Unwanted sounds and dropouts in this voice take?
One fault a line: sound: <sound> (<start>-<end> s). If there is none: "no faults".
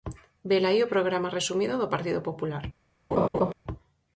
sound: laugh (3.1-3.5 s)